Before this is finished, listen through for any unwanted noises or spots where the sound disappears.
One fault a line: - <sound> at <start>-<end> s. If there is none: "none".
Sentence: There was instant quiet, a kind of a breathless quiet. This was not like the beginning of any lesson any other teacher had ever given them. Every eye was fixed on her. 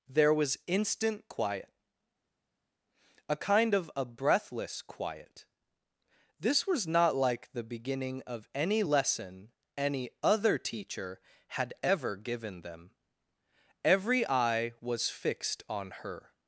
none